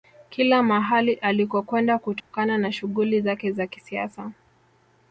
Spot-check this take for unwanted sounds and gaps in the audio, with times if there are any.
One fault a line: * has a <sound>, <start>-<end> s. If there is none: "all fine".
* has a dropout, 2.2-2.3 s